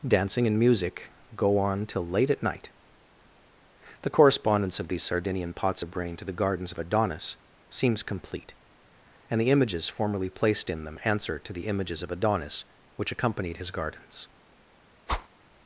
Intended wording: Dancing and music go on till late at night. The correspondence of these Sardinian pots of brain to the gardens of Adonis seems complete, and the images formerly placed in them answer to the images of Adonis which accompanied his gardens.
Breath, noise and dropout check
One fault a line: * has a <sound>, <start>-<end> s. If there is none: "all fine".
* has a whoosh, 15.1-15.3 s